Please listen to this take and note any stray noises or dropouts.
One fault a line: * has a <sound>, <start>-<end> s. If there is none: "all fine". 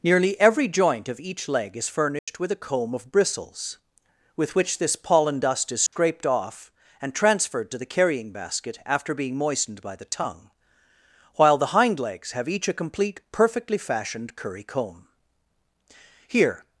* has a dropout, 2.2-2.3 s
* has a dropout, 5.9-5.9 s